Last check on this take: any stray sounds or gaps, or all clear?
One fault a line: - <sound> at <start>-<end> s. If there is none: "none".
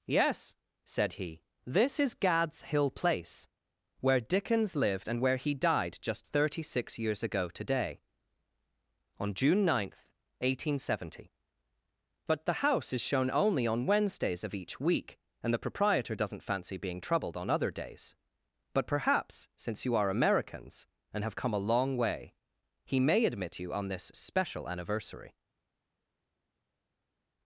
none